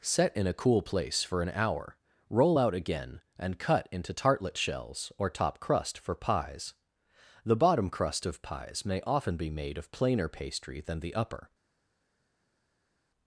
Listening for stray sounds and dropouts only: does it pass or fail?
pass